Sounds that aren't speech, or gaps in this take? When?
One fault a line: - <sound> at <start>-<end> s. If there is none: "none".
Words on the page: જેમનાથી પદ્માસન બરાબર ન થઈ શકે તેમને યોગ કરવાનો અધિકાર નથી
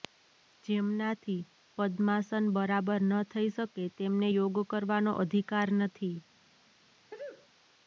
- sneeze at 7.1-7.5 s